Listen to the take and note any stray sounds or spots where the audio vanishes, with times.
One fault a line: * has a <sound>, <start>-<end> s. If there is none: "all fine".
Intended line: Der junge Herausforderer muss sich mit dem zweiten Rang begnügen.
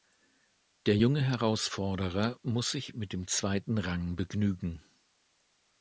all fine